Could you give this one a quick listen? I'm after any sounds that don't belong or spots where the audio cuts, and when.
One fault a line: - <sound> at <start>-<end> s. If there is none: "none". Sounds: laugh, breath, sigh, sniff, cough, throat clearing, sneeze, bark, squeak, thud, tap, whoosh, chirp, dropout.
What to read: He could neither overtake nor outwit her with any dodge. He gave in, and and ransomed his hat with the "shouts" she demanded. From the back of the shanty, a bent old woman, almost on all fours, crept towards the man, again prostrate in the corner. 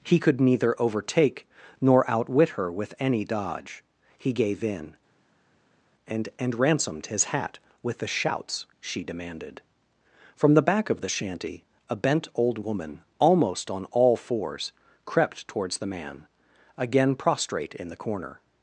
none